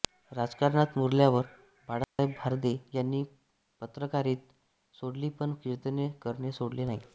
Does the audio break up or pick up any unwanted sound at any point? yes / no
yes